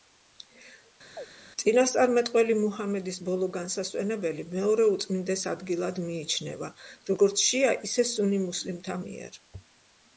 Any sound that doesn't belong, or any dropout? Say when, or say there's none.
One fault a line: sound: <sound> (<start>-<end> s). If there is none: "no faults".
sound: chirp (1.2-1.3 s)